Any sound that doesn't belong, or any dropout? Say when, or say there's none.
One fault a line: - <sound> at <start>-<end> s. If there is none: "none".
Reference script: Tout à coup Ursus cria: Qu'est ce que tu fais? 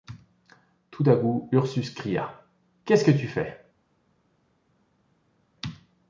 none